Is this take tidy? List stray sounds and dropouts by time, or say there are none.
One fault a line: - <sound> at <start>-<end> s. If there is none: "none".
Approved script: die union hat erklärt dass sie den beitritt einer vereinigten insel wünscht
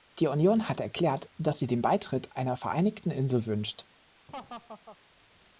- laugh at 4.3-5.0 s